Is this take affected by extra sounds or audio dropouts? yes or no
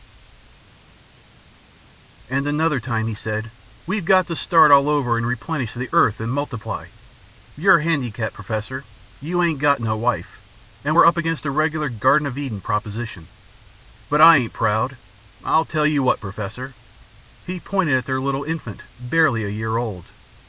no